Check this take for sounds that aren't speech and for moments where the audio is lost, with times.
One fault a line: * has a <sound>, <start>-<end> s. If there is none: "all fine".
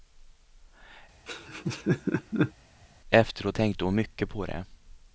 * has a laugh, 1.3-2.5 s